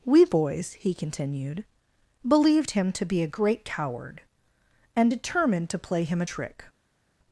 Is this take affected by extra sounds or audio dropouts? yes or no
no